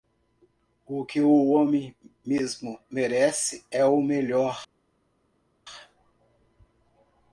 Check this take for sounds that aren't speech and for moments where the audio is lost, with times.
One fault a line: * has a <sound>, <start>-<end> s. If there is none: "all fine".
all fine